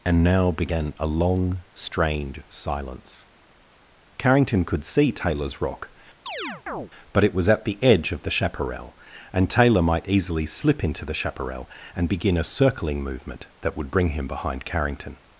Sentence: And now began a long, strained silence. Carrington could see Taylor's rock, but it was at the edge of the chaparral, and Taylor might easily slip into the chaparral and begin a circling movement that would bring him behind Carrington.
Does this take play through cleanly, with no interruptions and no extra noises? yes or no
no